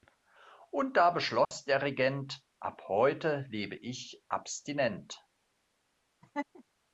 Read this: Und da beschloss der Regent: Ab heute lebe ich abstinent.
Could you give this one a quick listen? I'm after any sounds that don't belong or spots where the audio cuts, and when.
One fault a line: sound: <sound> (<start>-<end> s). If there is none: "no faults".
sound: dropout (1.4-1.5 s)
sound: laugh (6.2-6.6 s)